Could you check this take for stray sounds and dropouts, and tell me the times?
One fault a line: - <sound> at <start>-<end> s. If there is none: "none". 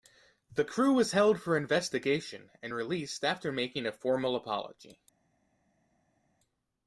none